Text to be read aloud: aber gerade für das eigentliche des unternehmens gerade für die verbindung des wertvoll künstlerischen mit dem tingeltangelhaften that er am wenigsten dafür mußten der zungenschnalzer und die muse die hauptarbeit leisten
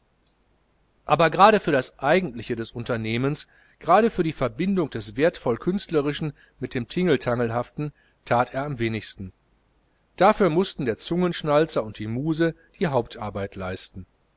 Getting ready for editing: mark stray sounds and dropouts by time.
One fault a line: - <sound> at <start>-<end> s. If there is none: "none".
none